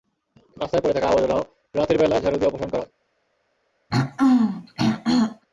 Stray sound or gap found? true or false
true